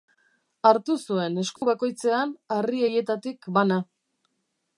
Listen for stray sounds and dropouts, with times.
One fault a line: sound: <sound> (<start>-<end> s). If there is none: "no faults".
sound: dropout (1.6-1.6 s)